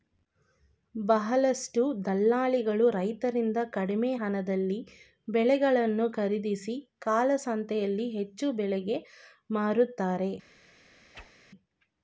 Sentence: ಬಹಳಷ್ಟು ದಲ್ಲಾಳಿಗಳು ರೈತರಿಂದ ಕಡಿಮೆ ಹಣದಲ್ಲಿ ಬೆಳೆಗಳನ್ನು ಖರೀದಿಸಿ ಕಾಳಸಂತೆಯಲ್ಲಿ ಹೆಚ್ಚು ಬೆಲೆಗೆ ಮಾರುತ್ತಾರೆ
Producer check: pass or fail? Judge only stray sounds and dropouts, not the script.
fail